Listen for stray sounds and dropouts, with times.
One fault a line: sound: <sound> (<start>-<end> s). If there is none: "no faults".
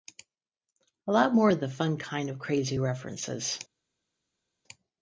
no faults